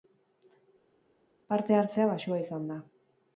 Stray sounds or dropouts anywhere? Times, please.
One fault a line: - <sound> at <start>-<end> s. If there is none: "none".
none